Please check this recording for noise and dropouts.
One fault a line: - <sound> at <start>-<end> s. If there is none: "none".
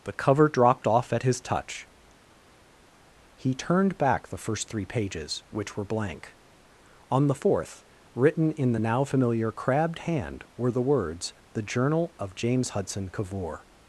none